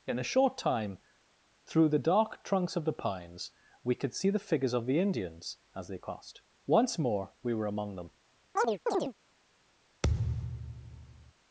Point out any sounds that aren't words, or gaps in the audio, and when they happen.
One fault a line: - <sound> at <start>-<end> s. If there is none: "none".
- chirp at 8.6-9.1 s
- thud at 10.0-11.3 s